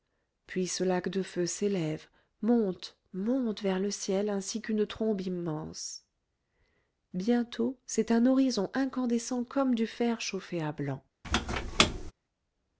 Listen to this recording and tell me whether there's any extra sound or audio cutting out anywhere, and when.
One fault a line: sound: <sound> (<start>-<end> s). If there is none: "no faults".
sound: squeak (11.2-12.1 s)